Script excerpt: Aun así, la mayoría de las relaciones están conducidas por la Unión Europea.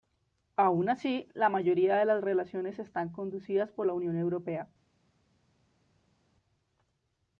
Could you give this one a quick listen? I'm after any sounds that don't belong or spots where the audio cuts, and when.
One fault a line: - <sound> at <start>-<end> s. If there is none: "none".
none